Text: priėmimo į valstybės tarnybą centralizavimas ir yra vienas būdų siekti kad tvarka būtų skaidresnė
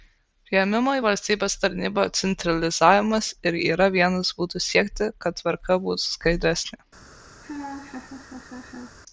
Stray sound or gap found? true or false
true